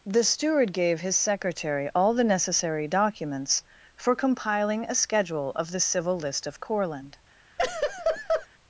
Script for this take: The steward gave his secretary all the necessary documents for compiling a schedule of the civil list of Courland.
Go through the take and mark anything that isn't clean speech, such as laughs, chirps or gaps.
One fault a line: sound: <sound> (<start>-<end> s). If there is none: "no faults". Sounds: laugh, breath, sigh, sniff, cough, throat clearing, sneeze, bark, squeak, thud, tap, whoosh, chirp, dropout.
sound: laugh (7.6-8.5 s)